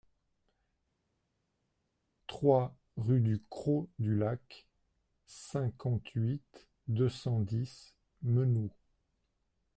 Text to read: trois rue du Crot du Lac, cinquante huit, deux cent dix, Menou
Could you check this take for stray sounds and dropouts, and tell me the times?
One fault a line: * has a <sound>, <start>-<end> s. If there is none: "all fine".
all fine